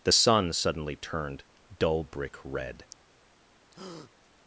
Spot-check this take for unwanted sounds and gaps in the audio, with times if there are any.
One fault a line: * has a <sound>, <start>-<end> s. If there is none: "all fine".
* has a breath, 3.7-4.1 s